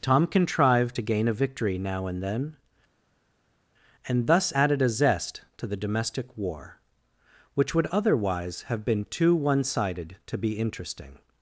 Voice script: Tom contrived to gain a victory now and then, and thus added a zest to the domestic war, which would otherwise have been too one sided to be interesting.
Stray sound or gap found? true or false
false